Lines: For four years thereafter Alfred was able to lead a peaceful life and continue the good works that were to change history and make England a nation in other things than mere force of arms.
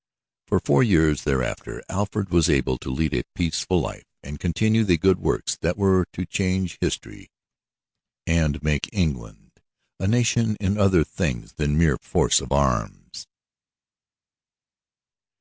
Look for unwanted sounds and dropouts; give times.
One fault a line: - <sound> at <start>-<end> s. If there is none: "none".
none